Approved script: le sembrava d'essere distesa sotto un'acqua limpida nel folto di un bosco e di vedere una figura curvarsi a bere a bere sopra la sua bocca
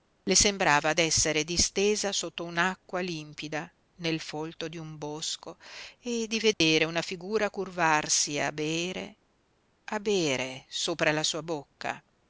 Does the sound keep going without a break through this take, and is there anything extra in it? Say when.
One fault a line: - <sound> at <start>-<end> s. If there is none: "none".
- dropout at 6.5-6.6 s